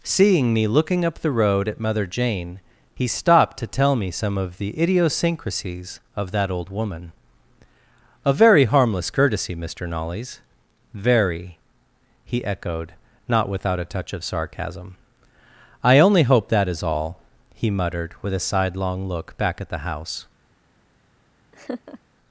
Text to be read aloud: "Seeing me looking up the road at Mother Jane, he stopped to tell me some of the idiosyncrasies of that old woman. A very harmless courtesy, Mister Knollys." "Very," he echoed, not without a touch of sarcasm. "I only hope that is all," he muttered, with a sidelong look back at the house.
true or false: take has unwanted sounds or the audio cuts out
true